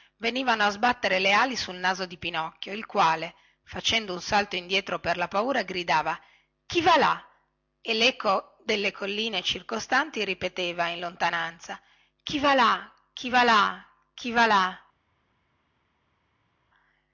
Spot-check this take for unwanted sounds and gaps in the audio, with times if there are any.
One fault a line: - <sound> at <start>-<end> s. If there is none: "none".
none